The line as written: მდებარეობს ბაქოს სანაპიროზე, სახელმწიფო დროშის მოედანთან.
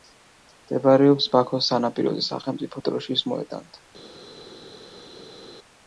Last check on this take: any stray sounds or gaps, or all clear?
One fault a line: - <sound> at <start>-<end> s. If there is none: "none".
none